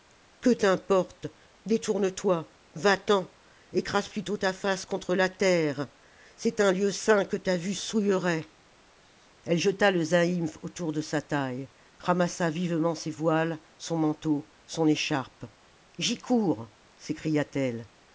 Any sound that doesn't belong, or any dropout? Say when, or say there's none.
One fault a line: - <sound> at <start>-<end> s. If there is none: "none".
none